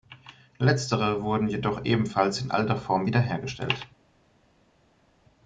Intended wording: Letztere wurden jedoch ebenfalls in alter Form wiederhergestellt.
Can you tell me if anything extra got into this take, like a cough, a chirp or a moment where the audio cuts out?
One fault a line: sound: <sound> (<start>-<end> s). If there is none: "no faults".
no faults